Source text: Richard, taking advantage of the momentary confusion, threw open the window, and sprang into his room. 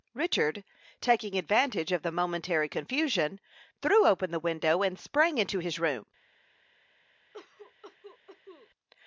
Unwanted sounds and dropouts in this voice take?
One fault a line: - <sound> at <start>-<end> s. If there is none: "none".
- cough at 7.3-8.7 s